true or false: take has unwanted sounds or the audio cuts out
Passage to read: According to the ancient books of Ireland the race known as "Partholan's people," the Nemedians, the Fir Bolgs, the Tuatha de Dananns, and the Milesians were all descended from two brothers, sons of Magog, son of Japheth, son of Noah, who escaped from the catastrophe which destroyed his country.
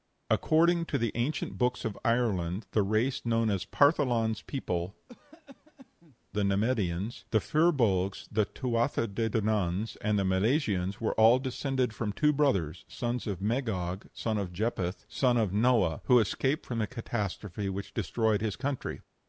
true